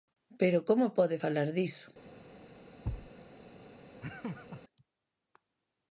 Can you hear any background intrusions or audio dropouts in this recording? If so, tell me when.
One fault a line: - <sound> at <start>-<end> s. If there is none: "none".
- thud at 2.8-3.1 s
- laugh at 4.0-4.6 s